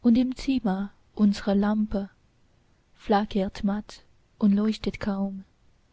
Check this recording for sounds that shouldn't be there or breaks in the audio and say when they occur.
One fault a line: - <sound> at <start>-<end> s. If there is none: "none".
none